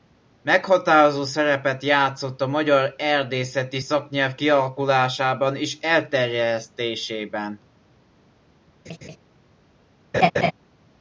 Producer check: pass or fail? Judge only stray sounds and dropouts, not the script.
fail